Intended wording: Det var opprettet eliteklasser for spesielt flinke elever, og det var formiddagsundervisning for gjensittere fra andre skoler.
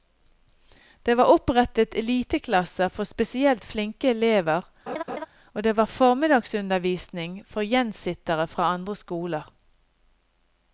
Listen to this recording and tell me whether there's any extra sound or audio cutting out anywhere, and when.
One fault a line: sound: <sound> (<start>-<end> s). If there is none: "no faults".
sound: laugh (4.9-5.3 s)